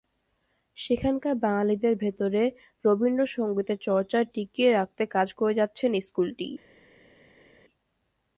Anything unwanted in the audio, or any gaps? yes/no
no